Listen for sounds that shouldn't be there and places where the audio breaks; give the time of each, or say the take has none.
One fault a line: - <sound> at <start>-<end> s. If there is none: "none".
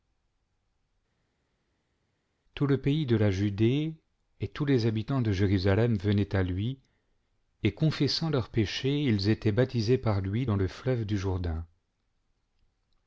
none